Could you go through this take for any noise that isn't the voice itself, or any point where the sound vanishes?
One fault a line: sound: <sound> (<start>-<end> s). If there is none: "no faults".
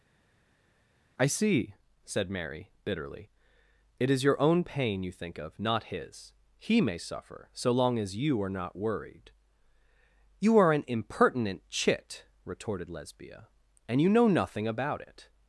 no faults